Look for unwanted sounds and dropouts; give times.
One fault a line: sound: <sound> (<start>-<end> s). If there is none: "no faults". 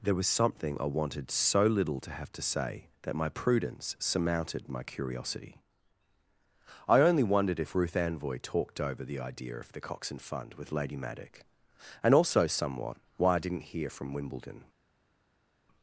no faults